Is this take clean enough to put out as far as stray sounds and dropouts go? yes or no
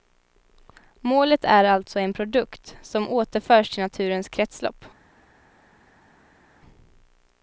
yes